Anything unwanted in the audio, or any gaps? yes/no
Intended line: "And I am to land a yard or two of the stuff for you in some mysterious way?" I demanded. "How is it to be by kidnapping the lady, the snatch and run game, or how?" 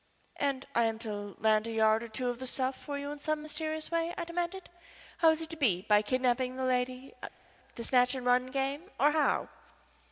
no